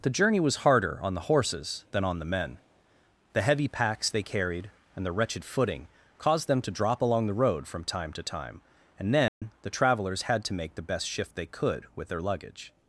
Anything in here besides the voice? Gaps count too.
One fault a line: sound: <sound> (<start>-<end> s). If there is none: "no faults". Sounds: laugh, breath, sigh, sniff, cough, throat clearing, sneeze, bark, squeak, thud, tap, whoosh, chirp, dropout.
sound: dropout (9.3-9.4 s)